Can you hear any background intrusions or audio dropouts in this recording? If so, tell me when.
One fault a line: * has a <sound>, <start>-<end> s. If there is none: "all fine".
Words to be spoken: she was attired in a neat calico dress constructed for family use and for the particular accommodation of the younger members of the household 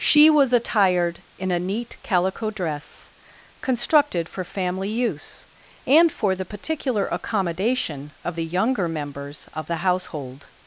all fine